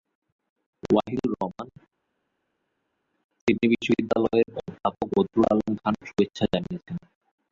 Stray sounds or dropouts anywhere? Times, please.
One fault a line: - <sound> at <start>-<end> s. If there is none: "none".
none